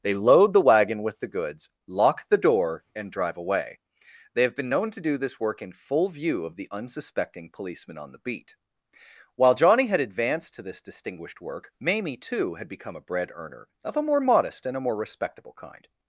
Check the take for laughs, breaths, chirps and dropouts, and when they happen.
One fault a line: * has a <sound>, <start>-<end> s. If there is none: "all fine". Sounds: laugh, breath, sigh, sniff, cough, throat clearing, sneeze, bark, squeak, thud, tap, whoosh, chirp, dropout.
all fine